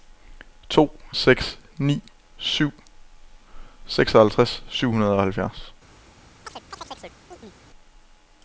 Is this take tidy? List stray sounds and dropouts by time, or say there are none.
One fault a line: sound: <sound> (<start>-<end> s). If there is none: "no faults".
sound: chirp (6.5-7.6 s)